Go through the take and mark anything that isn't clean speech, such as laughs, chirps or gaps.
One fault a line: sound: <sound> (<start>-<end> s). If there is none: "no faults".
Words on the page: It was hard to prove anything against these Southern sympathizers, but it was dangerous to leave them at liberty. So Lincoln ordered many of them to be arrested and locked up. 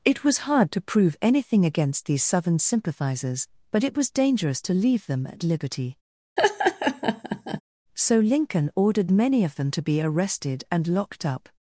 sound: laugh (6.4-7.6 s)